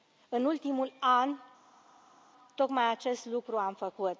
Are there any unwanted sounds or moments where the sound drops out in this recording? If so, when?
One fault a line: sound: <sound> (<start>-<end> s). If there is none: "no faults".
no faults